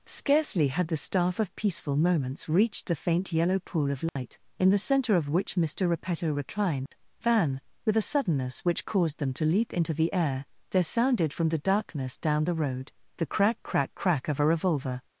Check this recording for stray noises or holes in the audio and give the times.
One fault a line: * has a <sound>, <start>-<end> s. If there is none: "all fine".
* has a dropout, 4.1-4.2 s
* has a dropout, 6.9-6.9 s